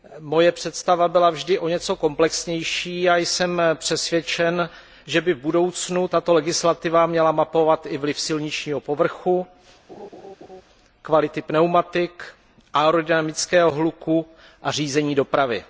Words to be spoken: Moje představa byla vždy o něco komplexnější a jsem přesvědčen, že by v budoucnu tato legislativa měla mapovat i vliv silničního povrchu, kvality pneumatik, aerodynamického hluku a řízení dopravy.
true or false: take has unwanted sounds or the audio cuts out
true